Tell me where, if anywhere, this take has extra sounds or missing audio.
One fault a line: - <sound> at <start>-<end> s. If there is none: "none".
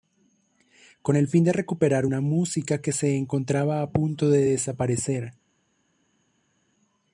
none